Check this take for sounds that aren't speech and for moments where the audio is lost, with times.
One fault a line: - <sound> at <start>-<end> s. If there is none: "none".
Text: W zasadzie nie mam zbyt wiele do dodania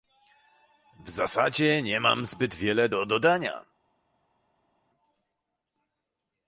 none